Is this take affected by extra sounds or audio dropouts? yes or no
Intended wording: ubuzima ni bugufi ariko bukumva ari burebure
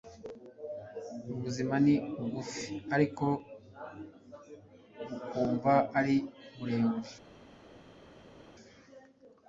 no